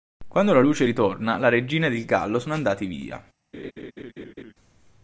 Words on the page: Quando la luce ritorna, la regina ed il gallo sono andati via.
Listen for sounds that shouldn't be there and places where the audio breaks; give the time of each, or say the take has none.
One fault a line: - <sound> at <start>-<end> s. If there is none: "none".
- laugh at 3.5-4.5 s